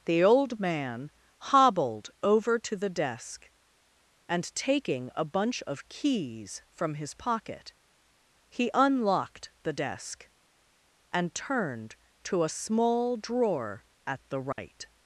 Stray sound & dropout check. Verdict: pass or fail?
fail